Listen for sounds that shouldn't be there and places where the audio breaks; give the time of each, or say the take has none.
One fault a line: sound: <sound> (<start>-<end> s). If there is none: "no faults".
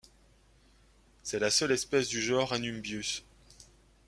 no faults